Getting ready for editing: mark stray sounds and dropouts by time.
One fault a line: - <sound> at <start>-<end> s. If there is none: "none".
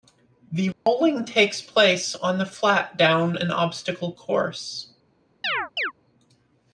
- dropout at 0.7-0.9 s
- chirp at 5.4-5.9 s